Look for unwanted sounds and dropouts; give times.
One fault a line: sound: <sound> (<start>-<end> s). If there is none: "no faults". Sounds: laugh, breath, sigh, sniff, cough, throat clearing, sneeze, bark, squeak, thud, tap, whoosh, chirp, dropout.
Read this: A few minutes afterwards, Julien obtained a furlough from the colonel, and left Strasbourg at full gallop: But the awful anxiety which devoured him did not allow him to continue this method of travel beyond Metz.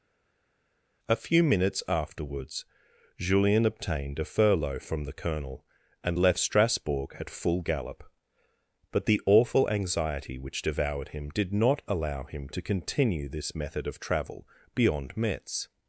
no faults